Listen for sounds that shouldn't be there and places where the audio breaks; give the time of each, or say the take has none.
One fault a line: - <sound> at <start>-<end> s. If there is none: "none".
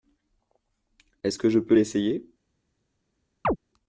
- chirp at 3.4-3.6 s